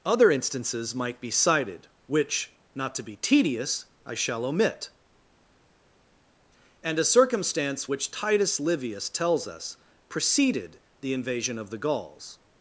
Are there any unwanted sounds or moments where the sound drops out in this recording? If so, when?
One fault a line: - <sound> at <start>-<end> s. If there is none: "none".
none